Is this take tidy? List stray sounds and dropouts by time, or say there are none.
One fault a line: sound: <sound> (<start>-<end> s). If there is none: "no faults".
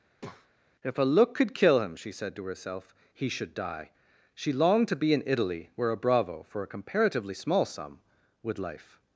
sound: breath (0.1-0.5 s)